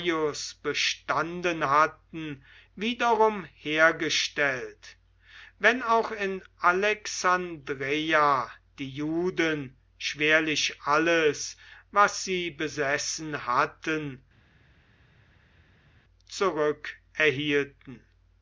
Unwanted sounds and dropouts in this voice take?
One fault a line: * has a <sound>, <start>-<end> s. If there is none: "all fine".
all fine